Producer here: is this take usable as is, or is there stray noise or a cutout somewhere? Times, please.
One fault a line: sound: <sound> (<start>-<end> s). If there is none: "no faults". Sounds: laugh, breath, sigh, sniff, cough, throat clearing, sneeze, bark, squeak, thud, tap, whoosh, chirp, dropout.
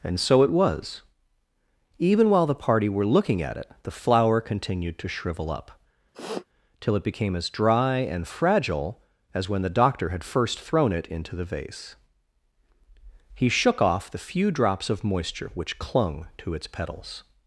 sound: sniff (6.1-6.5 s)